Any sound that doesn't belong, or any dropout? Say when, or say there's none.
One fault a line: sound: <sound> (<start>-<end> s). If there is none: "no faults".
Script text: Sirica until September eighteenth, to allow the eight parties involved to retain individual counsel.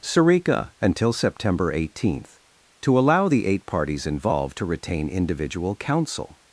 no faults